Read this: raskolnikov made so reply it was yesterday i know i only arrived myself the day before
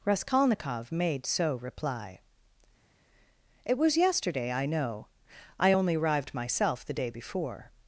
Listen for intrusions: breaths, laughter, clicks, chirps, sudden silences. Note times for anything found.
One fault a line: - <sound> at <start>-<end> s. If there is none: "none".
none